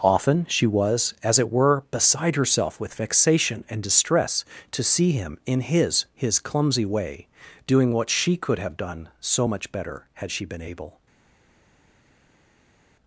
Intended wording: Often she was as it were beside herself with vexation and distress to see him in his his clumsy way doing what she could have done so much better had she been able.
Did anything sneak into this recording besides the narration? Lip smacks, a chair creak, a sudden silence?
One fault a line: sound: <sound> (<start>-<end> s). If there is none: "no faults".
no faults